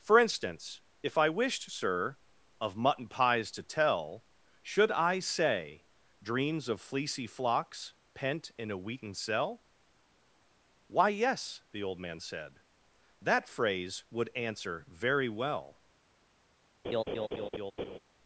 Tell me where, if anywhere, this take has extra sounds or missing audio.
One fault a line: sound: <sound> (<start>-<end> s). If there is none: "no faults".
sound: laugh (16.8-18.0 s)